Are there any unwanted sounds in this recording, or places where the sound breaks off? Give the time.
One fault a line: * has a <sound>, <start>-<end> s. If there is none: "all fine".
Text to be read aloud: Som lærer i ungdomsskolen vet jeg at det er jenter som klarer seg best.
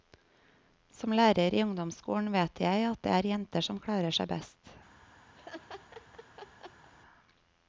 * has a laugh, 5.4-6.9 s